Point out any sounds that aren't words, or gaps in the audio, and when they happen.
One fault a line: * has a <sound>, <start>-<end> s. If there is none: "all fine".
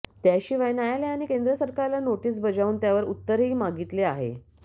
all fine